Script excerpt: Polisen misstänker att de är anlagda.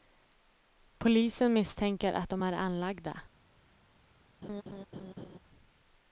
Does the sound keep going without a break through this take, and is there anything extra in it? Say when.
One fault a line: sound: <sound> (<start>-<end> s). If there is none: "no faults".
sound: laugh (4.4-5.4 s)